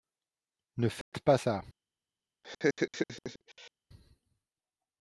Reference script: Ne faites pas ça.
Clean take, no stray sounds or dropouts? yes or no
no